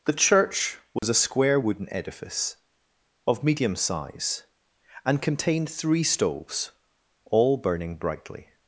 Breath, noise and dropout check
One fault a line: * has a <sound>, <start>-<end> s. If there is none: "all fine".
* has a dropout, 1.0-1.0 s